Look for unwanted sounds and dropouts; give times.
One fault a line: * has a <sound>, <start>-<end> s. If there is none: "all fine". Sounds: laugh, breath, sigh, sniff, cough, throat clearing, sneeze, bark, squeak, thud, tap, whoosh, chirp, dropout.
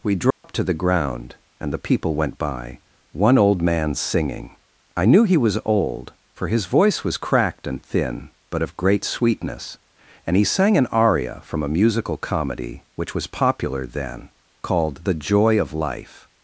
* has a dropout, 0.3-0.4 s